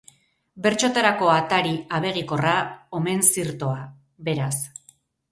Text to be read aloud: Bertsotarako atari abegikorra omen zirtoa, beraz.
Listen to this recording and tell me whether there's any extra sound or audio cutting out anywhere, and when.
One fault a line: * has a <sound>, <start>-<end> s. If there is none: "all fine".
all fine